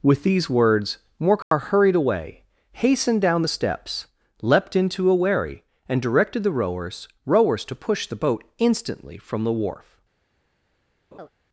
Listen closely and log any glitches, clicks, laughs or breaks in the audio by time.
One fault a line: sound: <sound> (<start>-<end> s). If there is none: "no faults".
sound: dropout (1.4-1.5 s)
sound: laugh (11.1-11.3 s)